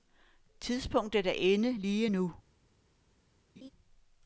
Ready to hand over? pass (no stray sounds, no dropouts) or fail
fail